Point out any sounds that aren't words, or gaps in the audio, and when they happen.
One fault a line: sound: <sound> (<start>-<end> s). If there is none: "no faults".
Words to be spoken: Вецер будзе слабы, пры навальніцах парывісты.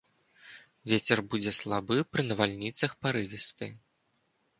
no faults